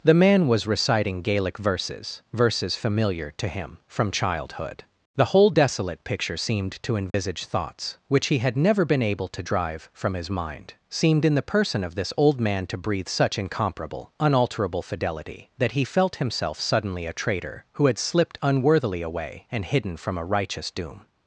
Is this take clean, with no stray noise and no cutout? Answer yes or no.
no